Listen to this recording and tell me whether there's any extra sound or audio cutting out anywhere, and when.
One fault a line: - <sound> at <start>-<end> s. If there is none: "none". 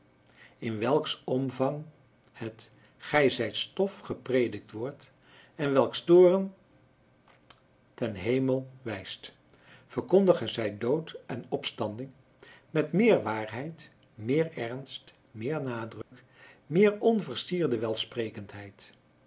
- dropout at 16.0-16.1 s